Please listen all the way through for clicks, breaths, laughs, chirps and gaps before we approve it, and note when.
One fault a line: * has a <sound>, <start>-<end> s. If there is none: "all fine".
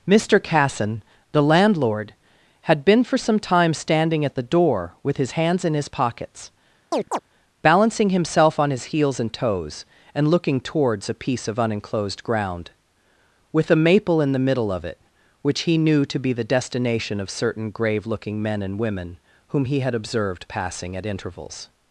* has a chirp, 6.9-7.2 s